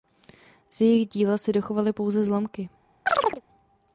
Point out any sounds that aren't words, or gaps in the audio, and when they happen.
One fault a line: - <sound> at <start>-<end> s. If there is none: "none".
- chirp at 3.1-3.4 s